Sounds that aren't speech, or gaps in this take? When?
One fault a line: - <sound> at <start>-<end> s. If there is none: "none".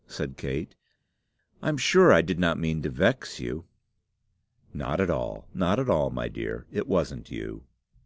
none